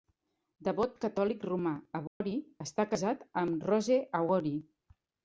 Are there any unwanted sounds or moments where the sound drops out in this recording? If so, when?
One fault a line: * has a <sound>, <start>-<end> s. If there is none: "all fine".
* has a dropout, 2.1-2.2 s